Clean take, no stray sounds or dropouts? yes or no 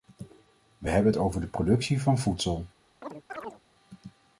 no